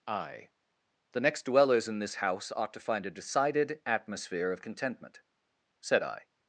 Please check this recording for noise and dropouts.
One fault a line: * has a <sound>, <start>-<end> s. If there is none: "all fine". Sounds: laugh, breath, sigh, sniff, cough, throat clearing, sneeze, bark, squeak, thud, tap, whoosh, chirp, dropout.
all fine